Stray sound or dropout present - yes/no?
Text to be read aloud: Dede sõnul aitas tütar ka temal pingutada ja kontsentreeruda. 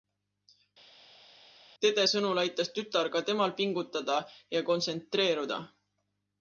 no